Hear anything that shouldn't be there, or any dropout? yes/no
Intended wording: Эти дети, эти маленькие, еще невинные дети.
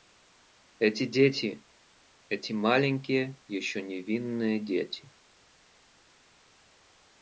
no